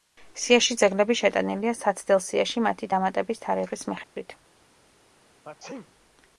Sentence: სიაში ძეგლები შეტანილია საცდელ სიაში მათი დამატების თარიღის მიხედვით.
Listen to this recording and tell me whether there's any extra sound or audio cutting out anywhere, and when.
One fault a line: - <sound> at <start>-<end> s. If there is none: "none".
- dropout at 4.0-4.2 s
- sneeze at 5.4-5.9 s